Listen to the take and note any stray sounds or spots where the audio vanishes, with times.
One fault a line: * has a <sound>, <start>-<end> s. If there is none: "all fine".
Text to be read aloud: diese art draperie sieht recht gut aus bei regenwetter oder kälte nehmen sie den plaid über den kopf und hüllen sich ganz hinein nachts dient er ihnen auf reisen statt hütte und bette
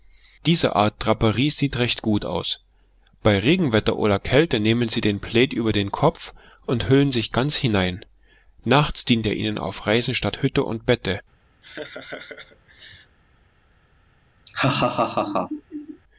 * has a laugh, 11.6-13.2 s
* has a laugh, 14.5-16.0 s